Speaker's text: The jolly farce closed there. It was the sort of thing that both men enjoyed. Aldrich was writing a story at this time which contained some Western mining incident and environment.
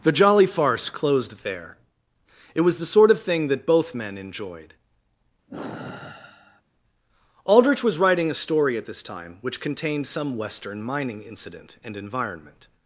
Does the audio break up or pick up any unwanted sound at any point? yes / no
yes